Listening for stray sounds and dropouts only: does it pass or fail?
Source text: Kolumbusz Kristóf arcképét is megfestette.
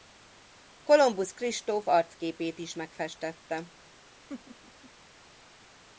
fail